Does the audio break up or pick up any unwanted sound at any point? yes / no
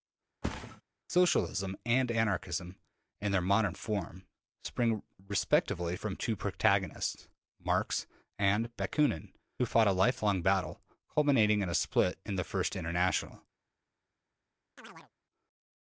yes